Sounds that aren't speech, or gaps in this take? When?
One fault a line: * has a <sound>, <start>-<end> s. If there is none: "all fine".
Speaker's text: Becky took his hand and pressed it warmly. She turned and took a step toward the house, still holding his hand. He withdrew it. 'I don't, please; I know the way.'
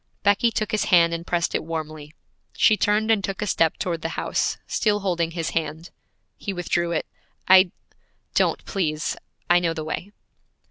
all fine